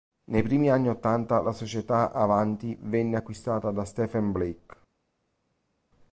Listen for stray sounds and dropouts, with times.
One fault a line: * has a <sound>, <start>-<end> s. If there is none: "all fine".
all fine